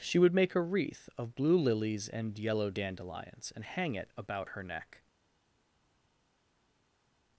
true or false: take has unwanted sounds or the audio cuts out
false